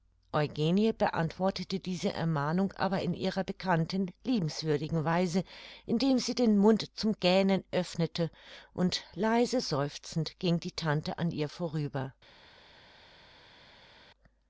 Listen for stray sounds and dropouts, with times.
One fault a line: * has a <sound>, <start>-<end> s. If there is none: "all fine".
all fine